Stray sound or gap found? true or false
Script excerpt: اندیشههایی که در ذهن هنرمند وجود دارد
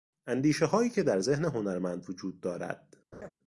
true